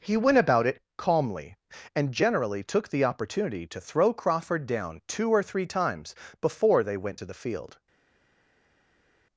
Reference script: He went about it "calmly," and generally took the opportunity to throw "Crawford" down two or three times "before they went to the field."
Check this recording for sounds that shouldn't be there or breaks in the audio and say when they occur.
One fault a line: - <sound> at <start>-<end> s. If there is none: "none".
none